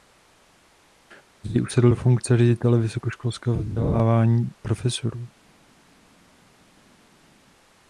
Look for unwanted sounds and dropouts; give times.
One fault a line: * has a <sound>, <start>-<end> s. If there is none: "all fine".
all fine